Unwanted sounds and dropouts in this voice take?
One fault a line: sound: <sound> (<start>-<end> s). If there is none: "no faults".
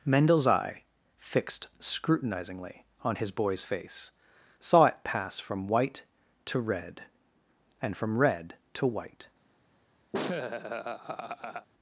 sound: laugh (10.1-11.7 s)